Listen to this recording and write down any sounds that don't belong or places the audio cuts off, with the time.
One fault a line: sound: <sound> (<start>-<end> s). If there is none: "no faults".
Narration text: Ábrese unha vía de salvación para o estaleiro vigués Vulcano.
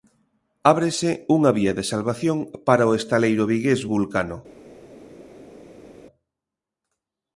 no faults